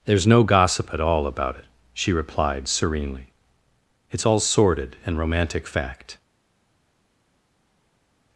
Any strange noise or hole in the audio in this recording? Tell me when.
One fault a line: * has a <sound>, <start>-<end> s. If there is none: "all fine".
all fine